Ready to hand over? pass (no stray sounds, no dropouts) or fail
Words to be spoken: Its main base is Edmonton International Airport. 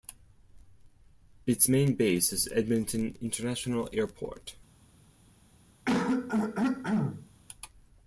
fail